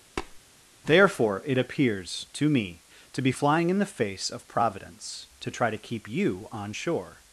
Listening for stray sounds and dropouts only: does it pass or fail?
fail